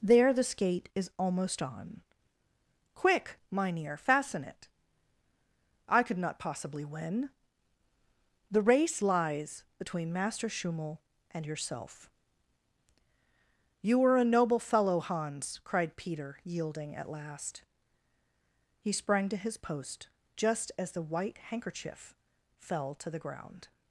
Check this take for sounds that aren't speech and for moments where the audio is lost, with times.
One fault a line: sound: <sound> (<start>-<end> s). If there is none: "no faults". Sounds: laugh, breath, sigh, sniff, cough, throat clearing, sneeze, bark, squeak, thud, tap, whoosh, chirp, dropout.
no faults